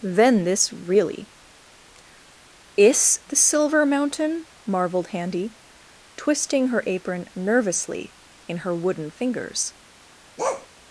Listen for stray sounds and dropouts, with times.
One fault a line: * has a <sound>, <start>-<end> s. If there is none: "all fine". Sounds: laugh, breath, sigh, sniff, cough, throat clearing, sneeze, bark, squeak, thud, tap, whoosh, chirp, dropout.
* has a bark, 10.4-10.7 s